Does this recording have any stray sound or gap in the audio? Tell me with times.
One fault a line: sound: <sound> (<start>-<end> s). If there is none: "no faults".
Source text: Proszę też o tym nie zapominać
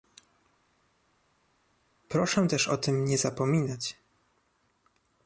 no faults